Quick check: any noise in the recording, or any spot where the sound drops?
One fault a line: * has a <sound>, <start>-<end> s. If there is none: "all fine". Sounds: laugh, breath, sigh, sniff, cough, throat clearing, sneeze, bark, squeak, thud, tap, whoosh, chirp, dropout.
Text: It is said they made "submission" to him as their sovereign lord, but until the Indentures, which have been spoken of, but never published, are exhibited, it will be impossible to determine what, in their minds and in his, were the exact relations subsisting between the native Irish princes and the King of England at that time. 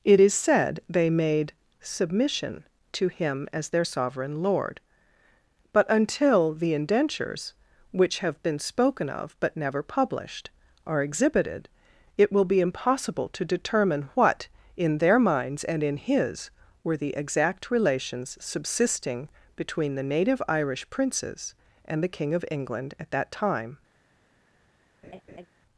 * has a laugh, 25.0-25.5 s